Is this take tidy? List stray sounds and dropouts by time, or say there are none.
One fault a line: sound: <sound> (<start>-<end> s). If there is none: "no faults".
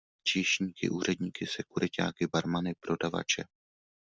no faults